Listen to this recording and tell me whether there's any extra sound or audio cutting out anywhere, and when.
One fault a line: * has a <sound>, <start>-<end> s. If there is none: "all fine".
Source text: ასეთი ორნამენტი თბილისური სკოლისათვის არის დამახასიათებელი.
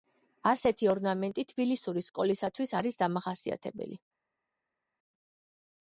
all fine